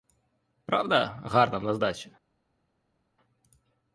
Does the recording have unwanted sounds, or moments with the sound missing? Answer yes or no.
no